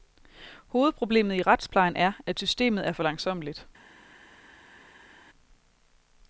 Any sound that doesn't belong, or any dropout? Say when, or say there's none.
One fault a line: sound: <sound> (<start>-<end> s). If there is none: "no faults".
no faults